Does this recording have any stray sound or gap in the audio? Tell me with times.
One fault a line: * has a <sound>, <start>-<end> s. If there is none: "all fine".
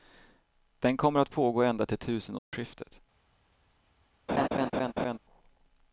* has a dropout, 2.4-2.5 s
* has a laugh, 4.3-5.2 s